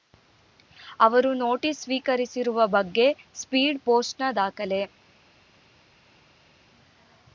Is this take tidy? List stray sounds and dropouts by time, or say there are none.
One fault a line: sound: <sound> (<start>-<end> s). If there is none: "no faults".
no faults